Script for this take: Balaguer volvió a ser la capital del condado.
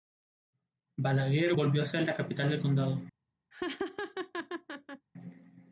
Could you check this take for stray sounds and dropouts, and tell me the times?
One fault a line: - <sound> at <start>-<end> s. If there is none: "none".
- laugh at 3.5-5.1 s